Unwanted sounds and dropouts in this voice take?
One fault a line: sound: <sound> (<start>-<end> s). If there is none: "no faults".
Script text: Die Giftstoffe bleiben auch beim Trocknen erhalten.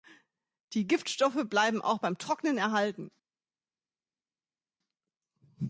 no faults